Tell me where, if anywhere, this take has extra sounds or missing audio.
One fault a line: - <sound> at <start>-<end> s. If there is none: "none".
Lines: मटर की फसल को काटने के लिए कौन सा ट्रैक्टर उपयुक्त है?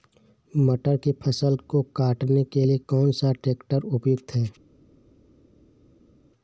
none